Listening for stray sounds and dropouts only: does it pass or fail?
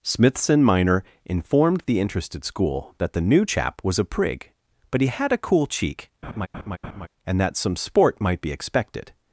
fail